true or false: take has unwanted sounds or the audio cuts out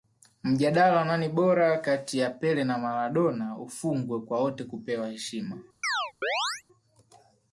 true